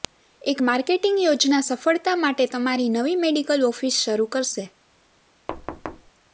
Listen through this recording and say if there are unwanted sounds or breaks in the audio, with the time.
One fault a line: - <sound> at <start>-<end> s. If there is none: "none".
- thud at 5.5-6.1 s